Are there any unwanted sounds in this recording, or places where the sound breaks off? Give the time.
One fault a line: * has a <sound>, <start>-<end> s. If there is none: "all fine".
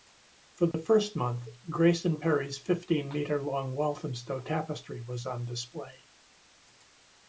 * has a dropout, 0.7-0.7 s